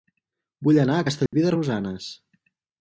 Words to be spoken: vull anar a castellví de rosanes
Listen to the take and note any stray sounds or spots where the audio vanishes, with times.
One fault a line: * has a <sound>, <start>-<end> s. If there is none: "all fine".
* has a dropout, 1.3-1.3 s